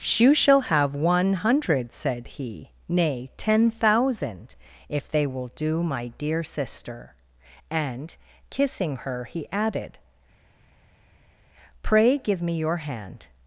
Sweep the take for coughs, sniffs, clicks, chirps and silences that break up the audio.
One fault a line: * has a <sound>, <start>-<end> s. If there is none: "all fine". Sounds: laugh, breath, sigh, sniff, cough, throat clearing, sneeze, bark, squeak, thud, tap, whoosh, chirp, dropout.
all fine